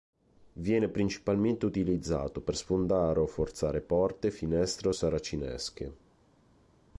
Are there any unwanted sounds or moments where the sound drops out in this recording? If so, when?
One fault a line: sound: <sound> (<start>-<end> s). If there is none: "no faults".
no faults